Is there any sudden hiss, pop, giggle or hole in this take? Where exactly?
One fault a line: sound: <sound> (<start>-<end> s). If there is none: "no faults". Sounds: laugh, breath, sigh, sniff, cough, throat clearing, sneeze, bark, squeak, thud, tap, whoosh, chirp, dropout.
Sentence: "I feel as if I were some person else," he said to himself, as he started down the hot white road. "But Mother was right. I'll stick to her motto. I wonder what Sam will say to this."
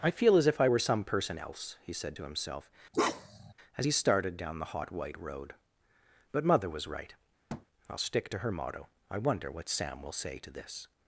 sound: bark (2.9-3.5 s)
sound: thud (7.5-7.7 s)